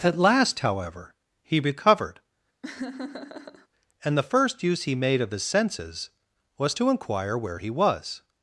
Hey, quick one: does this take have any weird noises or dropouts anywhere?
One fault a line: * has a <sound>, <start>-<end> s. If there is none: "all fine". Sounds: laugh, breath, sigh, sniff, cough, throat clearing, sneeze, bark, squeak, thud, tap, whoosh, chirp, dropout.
* has a laugh, 2.6-3.7 s